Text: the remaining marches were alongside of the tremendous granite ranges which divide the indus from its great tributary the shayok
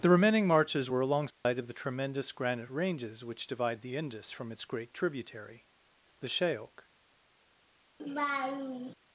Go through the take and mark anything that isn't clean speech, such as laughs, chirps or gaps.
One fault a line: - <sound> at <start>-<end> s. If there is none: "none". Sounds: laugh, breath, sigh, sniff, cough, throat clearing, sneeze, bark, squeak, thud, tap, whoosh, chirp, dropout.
- dropout at 1.3-1.4 s
- laugh at 8.0-8.9 s